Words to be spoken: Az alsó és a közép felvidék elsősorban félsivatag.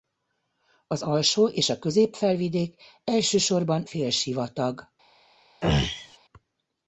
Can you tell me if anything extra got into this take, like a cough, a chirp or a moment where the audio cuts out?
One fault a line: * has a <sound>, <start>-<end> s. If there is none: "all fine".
* has a throat clearing, 5.6-6.2 s